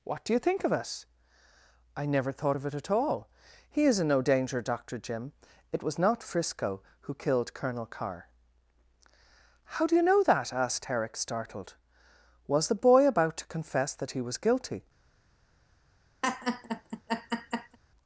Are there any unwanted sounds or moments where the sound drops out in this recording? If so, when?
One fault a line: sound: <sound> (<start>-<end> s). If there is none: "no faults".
sound: laugh (16.2-17.8 s)